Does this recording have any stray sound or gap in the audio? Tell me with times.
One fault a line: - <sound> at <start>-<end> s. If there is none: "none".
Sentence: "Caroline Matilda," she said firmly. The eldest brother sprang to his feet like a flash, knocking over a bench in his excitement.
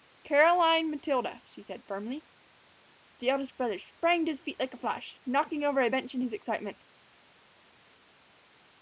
none